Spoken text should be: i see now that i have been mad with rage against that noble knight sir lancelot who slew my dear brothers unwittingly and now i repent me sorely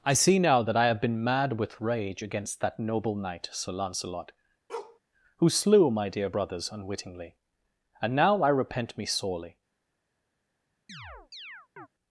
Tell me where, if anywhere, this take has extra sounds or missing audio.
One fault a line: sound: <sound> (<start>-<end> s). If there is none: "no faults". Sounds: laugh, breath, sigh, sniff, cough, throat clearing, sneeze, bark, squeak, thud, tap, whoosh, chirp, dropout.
sound: bark (4.7-5.0 s)
sound: chirp (10.9-11.9 s)